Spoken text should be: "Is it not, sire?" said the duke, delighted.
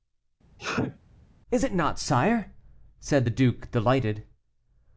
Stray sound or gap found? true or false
true